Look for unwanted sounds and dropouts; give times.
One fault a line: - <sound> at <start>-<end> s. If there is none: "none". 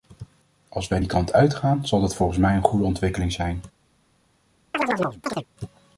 - chirp at 4.7-5.5 s